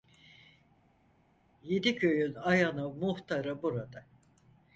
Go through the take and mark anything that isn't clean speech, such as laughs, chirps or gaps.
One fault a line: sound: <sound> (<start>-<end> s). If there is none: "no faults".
no faults